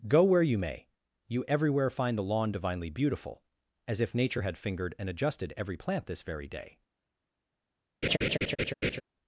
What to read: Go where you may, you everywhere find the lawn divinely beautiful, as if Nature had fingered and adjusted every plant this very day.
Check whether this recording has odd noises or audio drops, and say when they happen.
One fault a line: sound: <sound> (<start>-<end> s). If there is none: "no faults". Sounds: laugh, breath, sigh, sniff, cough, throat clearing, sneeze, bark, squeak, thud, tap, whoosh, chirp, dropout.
sound: laugh (8.0-9.0 s)